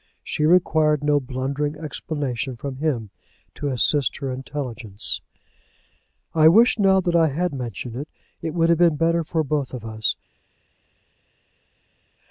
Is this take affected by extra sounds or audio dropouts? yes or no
no